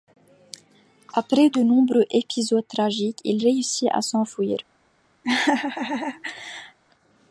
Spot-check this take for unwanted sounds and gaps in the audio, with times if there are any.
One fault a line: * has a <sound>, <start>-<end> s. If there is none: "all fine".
* has a laugh, 5.2-6.8 s